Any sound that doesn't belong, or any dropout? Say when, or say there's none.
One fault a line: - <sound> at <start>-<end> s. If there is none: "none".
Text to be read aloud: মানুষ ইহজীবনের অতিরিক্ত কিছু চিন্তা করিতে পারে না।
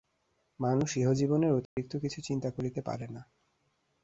- dropout at 1.7-1.8 s